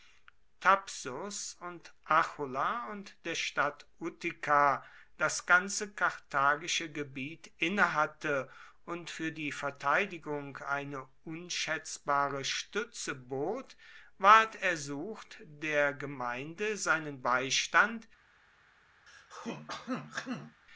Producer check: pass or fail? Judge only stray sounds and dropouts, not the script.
fail